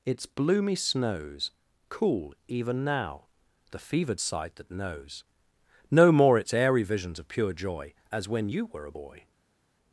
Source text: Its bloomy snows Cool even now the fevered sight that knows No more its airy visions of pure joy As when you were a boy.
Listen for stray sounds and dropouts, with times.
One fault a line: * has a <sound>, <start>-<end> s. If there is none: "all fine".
all fine